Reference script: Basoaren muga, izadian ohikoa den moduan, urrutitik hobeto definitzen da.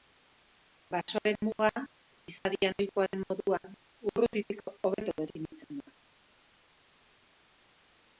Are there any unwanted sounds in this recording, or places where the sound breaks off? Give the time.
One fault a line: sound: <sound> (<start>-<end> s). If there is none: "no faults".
no faults